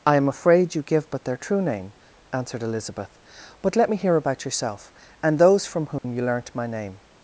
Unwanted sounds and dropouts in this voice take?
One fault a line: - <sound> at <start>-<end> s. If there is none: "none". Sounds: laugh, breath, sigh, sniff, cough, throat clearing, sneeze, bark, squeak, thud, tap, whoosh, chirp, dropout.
- dropout at 6.0-6.0 s